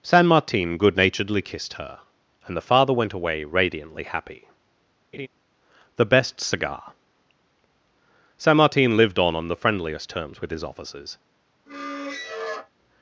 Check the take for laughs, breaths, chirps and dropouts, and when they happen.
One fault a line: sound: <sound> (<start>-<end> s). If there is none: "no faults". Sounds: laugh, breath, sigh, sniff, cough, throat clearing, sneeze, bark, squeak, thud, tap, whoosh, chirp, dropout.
sound: laugh (5.1-5.3 s)
sound: squeak (11.7-12.7 s)